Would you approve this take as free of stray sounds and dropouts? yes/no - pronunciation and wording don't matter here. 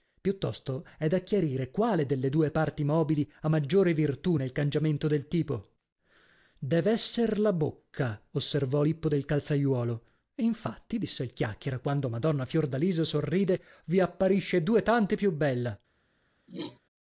no